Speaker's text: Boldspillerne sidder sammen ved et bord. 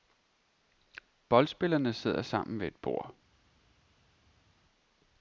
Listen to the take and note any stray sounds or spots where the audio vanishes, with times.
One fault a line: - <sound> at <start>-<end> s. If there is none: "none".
none